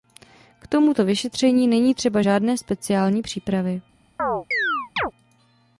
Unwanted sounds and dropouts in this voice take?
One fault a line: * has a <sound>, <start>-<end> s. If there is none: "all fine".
* has a chirp, 4.2-5.1 s